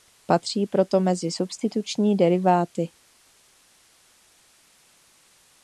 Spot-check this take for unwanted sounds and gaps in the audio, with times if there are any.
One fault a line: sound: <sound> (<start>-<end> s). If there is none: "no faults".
no faults